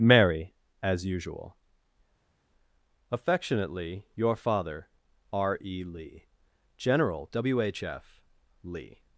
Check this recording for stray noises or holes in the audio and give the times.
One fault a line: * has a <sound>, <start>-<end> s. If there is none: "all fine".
all fine